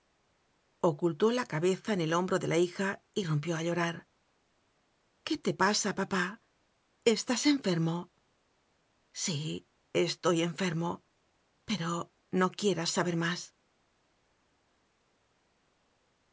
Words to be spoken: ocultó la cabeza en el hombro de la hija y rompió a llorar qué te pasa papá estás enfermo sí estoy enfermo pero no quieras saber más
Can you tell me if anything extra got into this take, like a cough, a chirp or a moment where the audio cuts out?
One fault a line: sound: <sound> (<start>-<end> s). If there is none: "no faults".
no faults